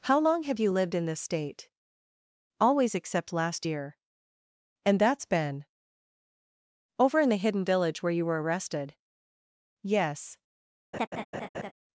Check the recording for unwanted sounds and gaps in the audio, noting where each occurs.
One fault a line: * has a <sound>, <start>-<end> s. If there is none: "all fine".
* has a laugh, 10.9-11.7 s